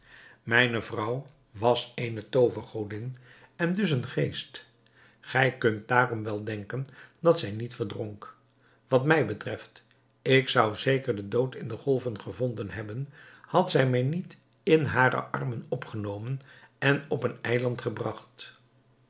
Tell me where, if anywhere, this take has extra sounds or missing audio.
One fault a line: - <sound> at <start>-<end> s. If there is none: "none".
none